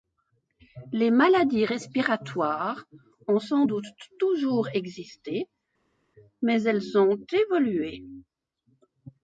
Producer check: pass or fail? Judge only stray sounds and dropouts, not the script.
pass